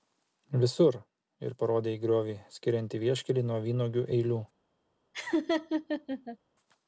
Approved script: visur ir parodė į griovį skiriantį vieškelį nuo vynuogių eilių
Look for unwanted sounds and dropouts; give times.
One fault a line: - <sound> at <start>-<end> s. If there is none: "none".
- laugh at 5.1-6.4 s